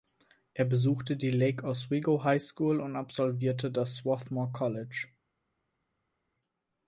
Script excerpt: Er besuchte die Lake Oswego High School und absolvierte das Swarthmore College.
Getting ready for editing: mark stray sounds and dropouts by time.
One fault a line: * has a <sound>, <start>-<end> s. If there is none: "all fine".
all fine